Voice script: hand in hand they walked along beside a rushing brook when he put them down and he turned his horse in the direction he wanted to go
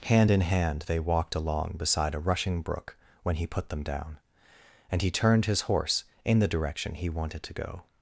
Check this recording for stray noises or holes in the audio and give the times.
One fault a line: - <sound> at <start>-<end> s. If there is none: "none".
none